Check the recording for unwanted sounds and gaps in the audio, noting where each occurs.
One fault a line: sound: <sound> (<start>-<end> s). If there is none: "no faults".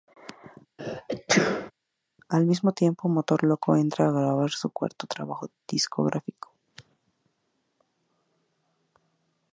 sound: sneeze (0.8-1.7 s)